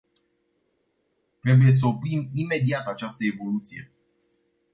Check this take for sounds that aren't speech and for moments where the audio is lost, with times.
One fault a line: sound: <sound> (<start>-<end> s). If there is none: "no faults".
no faults